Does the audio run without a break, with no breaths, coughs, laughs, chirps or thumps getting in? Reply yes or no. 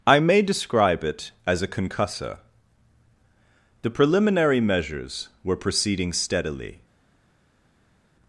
yes